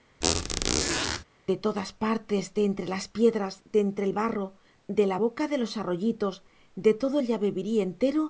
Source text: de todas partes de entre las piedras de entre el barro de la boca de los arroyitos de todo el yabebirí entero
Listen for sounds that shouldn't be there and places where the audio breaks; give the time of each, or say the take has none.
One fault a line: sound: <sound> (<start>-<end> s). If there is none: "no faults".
sound: squeak (0.2-1.2 s)